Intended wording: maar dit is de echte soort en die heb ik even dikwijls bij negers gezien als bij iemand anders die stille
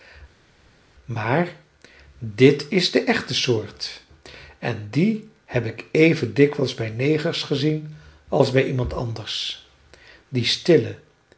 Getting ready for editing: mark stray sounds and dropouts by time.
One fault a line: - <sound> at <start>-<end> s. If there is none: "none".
none